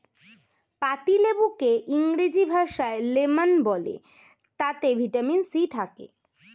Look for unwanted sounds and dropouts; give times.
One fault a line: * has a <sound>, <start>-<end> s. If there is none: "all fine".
all fine